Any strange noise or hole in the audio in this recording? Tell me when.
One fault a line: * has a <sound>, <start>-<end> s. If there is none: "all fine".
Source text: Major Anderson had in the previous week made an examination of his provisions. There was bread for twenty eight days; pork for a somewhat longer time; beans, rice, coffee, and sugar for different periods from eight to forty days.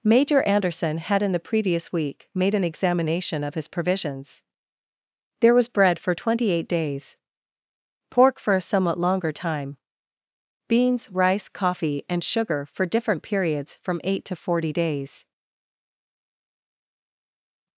all fine